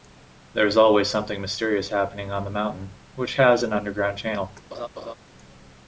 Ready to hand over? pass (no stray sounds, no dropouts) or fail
fail